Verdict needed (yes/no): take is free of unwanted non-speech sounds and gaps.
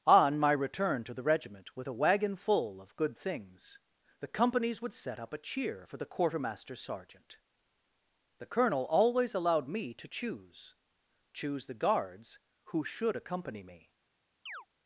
no